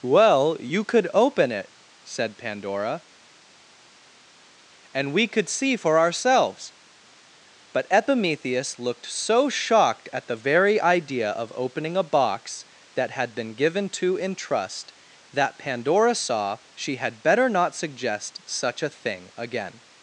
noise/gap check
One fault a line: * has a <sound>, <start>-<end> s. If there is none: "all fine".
all fine